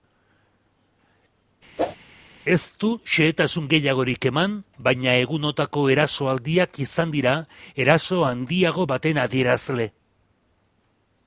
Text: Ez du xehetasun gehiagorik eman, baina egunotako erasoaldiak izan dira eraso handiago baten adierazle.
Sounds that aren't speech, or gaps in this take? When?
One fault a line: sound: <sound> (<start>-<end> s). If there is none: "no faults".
sound: whoosh (1.8-2.0 s)